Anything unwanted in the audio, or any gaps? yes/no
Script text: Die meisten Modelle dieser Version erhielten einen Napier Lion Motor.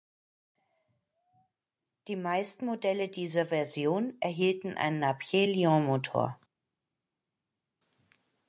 no